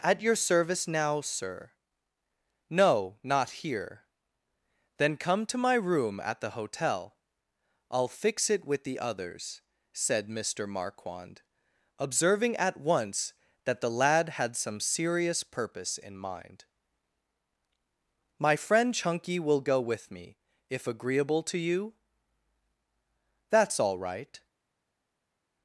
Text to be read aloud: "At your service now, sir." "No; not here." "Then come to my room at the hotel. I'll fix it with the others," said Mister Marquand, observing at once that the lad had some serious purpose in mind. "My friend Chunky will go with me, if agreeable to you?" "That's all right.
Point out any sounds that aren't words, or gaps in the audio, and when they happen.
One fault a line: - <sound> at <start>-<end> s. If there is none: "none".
none